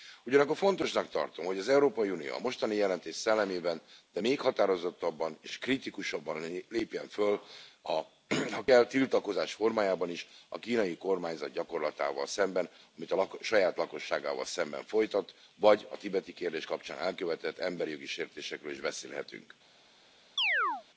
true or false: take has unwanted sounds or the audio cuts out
true